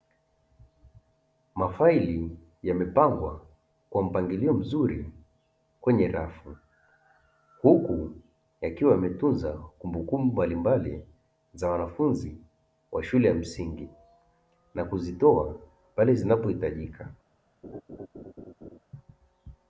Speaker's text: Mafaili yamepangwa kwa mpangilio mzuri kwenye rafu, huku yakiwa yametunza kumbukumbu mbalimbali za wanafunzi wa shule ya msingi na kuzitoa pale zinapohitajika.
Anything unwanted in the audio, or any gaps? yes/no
yes